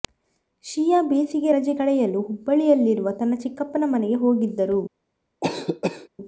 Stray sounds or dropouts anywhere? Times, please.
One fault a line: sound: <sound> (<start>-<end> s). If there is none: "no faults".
sound: cough (5.4-6.1 s)